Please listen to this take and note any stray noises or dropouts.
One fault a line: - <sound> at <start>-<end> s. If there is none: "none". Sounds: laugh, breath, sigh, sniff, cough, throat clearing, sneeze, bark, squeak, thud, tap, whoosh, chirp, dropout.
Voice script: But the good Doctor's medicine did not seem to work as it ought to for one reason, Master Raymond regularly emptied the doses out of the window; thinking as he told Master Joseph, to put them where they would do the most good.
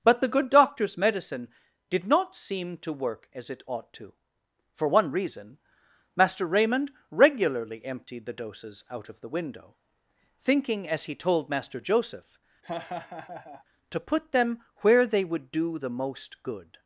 - laugh at 12.6-13.6 s